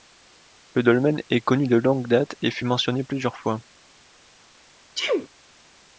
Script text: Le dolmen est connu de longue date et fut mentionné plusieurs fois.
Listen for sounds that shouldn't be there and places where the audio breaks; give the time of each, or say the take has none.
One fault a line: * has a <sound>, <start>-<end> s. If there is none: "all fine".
* has a sneeze, 5.0-5.3 s